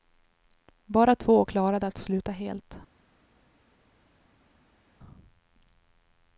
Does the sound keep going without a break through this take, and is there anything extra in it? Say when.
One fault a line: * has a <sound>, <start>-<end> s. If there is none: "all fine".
all fine